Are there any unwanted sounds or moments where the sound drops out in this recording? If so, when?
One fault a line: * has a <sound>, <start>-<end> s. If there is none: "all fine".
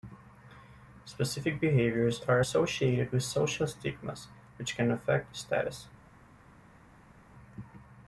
all fine